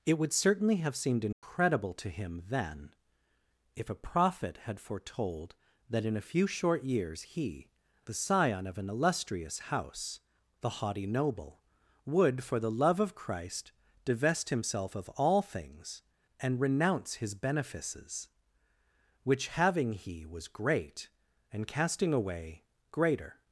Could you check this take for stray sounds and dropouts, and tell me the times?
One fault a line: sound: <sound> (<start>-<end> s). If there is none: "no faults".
sound: dropout (1.3-1.4 s)